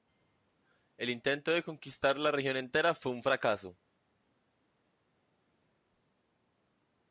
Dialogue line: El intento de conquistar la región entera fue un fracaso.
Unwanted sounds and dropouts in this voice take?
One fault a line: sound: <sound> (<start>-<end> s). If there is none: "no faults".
no faults